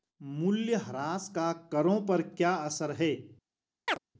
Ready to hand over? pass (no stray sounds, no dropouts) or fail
fail